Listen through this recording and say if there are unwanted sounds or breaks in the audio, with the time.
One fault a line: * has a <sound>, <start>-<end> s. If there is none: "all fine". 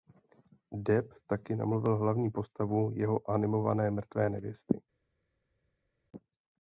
all fine